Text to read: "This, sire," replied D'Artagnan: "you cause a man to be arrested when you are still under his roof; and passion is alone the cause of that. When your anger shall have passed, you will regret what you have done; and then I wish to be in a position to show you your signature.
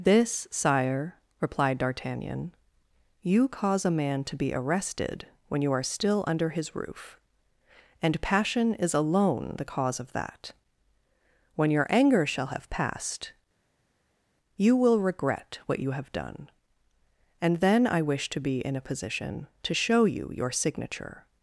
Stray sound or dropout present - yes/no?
no